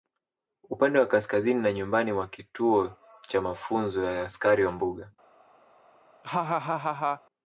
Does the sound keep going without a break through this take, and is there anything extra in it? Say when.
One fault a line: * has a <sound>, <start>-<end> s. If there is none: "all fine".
* has a laugh, 6.2-7.2 s